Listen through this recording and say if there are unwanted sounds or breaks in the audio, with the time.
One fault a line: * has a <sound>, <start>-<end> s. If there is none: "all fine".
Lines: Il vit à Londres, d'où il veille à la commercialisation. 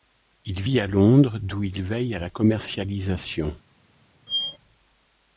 * has a squeak, 4.3-4.6 s